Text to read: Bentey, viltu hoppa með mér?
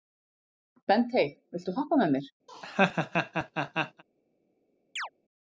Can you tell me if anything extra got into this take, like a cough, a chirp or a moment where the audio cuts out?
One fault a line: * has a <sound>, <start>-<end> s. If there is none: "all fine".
* has a laugh, 2.5-4.0 s
* has a chirp, 5.0-5.1 s